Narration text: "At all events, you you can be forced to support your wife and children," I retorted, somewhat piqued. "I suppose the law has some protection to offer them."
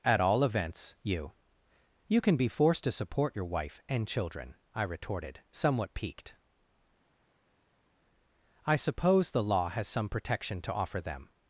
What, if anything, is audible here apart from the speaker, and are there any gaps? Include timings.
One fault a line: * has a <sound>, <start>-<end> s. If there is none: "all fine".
all fine